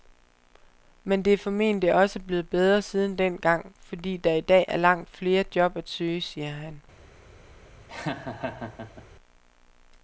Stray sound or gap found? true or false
true